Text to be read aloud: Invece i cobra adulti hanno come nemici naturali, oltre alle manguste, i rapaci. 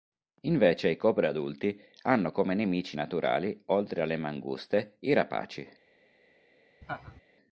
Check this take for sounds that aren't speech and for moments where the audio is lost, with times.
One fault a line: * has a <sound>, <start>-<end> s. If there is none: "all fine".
* has a laugh, 6.8-7.2 s